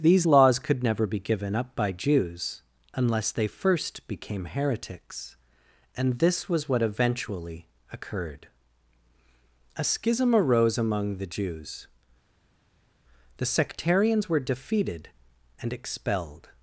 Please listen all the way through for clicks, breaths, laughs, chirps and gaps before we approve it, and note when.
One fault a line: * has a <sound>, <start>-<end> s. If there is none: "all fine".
all fine